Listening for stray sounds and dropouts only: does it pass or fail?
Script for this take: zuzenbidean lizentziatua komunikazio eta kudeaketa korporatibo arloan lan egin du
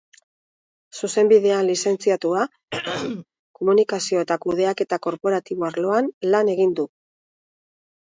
fail